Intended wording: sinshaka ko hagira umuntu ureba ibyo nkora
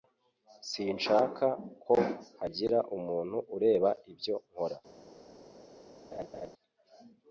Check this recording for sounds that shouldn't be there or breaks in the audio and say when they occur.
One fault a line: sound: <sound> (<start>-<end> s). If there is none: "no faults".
sound: laugh (6.1-6.5 s)